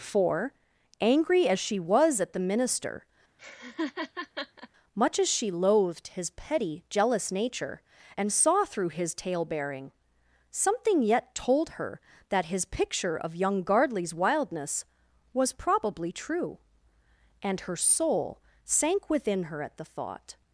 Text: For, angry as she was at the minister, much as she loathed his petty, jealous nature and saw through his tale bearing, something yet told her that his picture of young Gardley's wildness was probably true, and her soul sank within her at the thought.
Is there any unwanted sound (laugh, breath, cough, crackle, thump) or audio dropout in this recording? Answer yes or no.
yes